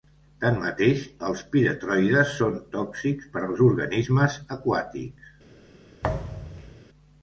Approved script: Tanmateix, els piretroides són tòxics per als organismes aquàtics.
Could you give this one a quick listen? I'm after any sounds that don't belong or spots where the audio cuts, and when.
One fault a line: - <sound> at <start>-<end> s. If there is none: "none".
- thud at 6.0-6.8 s